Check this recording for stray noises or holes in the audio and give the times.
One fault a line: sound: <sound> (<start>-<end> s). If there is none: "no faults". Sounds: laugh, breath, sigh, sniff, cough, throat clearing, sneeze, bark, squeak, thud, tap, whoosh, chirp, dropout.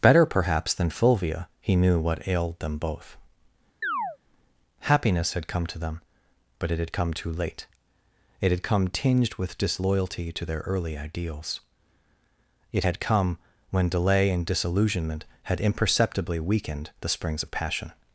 sound: chirp (3.8-4.2 s)